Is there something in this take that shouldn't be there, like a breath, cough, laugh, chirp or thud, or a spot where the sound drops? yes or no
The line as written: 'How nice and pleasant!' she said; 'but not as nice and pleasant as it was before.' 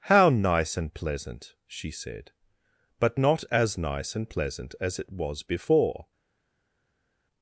no